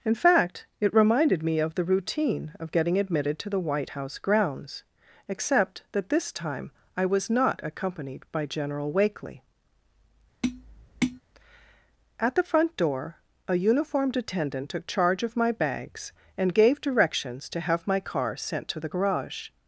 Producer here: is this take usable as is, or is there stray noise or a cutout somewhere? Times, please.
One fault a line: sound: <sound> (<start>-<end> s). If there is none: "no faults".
sound: tap (10.4-11.2 s)